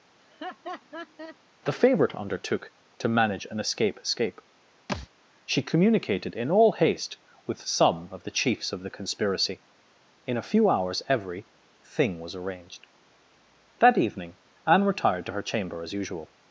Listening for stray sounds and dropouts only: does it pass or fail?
fail